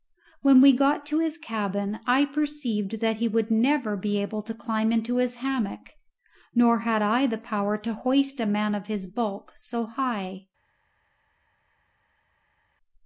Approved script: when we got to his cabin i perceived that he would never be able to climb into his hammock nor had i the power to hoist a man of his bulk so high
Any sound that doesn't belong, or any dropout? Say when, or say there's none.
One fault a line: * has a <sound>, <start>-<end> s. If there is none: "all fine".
all fine